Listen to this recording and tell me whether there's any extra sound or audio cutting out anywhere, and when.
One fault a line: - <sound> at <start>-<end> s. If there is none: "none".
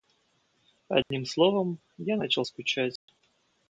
- dropout at 1.0-1.1 s
- dropout at 3.0-3.1 s